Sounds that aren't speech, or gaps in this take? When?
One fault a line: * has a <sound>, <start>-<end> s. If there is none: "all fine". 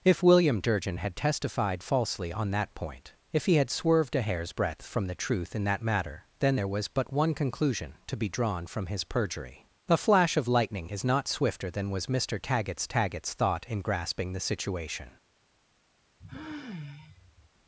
* has a sigh, 16.2-17.5 s